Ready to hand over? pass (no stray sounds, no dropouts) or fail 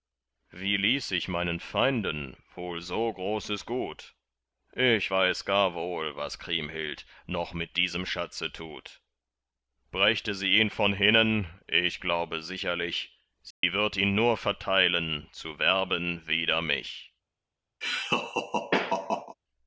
fail